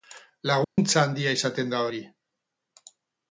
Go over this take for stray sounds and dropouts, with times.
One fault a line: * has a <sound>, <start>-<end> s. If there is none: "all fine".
* has a dropout, 0.6-0.8 s